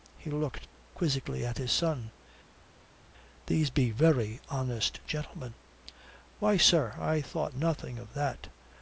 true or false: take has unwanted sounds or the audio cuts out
false